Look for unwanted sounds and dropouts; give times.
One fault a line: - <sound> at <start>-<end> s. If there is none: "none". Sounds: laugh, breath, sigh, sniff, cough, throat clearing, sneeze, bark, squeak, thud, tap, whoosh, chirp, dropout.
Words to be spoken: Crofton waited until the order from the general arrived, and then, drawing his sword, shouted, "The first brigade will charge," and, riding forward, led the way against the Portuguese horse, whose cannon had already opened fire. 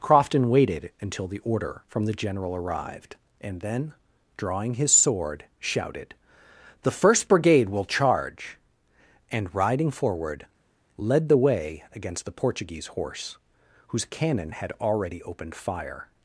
none